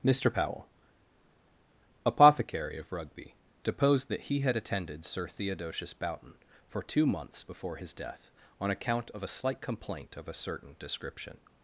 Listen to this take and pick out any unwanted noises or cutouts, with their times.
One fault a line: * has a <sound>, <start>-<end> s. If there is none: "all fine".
all fine